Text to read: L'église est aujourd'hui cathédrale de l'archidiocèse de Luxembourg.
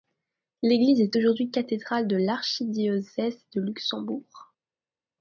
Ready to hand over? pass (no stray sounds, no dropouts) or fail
pass